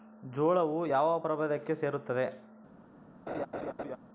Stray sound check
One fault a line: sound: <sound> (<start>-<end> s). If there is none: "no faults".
sound: laugh (3.3-4.0 s)